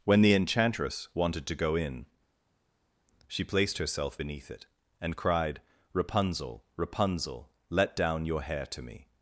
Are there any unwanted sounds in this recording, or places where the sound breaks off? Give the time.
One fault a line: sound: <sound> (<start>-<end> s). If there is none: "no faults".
no faults